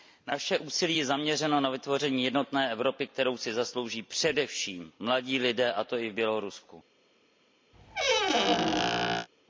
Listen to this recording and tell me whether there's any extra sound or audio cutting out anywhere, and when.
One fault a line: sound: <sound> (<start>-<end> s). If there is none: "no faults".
sound: squeak (7.7-9.3 s)